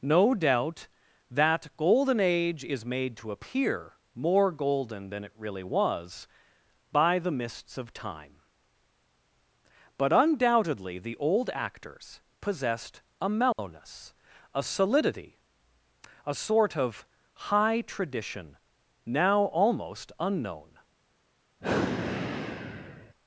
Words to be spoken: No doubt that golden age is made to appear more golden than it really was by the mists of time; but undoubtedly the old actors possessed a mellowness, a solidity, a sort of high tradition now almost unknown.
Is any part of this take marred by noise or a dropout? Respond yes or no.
yes